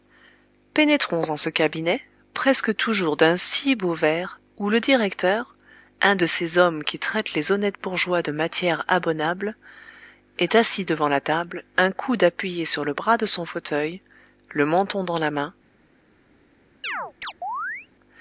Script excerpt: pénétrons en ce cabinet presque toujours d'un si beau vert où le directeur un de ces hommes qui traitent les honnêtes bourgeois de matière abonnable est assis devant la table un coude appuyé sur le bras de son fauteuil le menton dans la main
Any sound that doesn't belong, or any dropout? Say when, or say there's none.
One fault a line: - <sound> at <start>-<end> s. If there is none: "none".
- chirp at 16.8-17.9 s